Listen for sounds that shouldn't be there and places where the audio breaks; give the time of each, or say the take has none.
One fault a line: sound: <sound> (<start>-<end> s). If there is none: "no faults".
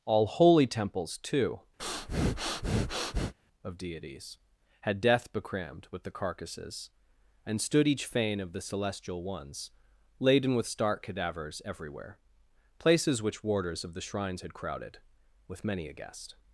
sound: breath (1.8-3.3 s)